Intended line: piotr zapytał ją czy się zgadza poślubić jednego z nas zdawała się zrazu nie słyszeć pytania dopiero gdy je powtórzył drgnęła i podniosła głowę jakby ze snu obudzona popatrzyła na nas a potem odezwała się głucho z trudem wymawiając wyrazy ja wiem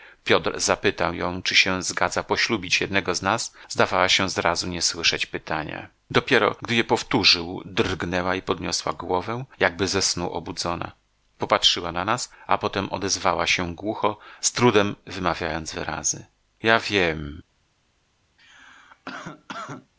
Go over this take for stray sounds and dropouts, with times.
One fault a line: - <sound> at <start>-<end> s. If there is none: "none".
- cough at 18.4-19.9 s